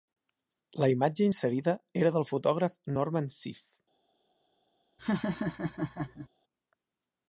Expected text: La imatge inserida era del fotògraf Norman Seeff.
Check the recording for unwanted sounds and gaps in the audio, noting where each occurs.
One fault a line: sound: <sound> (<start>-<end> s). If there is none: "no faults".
sound: laugh (5.0-6.3 s)